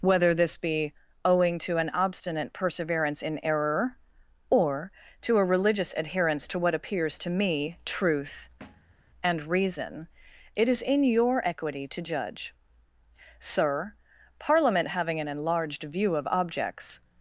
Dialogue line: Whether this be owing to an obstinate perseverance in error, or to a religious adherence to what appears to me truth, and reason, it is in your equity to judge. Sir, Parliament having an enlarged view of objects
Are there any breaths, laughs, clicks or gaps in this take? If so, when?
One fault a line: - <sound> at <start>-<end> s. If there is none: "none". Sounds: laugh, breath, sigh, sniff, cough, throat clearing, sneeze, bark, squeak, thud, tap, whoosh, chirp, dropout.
- thud at 8.6-9.0 s